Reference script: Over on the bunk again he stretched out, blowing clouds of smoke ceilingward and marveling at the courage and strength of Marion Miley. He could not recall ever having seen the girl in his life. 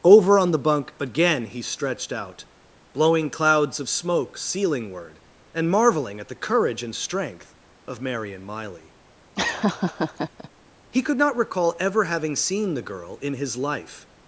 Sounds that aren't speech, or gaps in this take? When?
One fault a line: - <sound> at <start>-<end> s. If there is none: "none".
- laugh at 9.4-10.5 s